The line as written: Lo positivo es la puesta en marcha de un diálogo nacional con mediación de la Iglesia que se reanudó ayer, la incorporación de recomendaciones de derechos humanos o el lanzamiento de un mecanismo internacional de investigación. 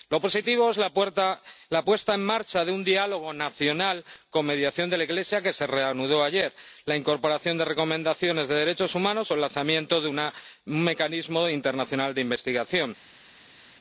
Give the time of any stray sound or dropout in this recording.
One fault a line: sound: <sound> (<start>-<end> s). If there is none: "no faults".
no faults